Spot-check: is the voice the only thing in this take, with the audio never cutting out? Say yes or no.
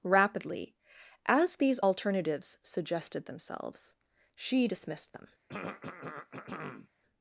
no